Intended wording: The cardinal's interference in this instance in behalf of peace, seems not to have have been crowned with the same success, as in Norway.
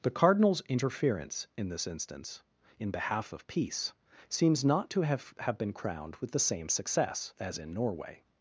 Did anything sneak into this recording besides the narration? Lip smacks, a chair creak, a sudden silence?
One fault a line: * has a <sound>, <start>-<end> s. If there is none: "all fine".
all fine